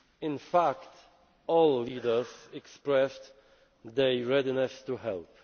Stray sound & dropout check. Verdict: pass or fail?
pass